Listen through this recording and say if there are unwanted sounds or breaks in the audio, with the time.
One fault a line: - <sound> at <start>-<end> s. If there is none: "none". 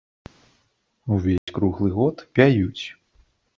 - dropout at 1.4-1.5 s